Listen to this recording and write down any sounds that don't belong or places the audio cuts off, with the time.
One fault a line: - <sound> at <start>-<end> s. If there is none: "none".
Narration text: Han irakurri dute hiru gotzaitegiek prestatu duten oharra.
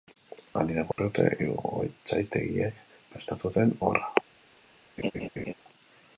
- dropout at 0.9-1.0 s
- laugh at 5.0-5.5 s